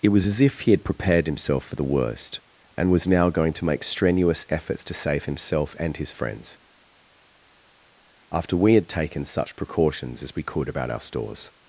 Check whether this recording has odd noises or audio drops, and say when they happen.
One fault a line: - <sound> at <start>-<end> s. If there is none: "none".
none